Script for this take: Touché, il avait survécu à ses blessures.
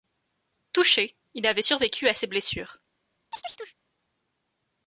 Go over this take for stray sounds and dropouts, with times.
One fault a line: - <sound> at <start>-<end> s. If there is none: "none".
- chirp at 3.3-3.7 s